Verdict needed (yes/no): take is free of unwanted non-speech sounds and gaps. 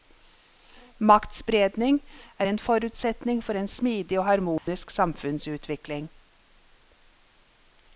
no